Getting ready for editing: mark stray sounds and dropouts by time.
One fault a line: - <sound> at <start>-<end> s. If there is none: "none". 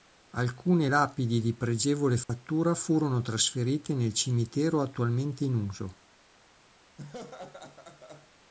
- dropout at 2.2-2.3 s
- laugh at 7.0-8.3 s